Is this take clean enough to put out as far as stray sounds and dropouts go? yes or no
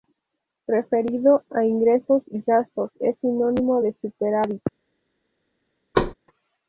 no